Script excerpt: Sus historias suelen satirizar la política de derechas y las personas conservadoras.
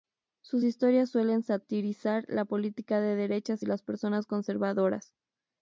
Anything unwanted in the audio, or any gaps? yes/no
no